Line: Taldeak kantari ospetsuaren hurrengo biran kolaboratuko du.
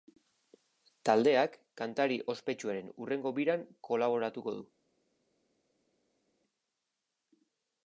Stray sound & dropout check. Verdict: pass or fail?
pass